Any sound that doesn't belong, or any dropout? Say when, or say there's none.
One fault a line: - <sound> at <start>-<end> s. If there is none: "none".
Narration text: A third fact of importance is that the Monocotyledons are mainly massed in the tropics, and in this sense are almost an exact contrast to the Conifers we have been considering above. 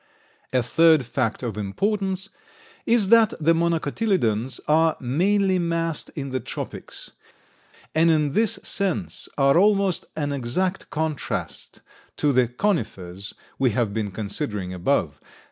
none